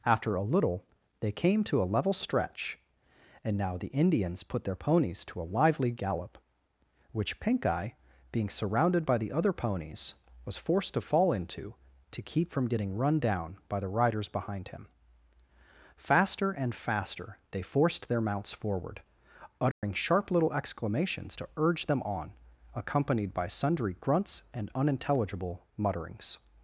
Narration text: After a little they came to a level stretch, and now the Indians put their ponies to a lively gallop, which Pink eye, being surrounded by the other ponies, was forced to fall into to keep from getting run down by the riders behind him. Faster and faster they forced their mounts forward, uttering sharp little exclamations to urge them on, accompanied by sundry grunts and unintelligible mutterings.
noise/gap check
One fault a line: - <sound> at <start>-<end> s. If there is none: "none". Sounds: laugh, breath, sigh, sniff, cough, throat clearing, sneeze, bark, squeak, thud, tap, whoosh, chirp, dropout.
- dropout at 19.7-19.8 s